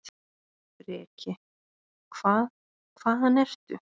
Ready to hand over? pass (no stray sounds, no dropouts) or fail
pass